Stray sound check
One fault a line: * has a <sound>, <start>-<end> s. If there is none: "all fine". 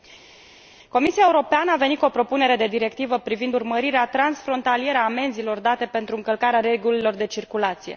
all fine